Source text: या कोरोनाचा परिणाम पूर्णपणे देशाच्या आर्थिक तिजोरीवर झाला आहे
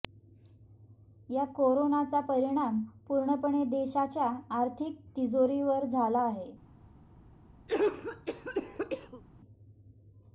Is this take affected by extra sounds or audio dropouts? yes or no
yes